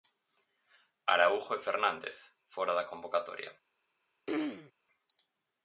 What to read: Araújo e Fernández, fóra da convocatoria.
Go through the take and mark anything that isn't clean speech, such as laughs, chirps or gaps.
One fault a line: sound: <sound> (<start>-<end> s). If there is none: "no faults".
sound: throat clearing (4.3-4.7 s)